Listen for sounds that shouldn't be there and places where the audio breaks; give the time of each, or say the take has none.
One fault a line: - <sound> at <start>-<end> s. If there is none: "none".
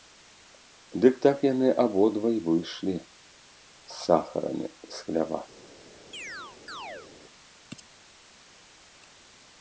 - chirp at 6.1-7.1 s